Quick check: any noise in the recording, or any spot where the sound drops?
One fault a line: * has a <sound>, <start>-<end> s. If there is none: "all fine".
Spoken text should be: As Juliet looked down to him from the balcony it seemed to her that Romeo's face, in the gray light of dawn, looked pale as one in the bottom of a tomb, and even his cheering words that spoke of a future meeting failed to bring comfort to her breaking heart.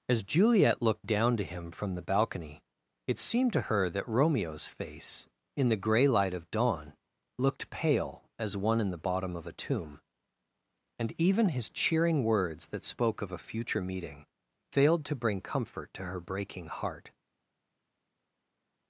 all fine